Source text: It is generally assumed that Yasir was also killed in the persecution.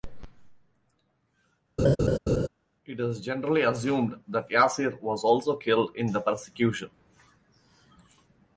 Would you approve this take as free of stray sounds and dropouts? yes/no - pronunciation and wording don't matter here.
no